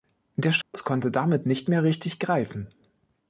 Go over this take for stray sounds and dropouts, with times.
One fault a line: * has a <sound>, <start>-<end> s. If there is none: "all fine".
* has a dropout, 0.6-0.7 s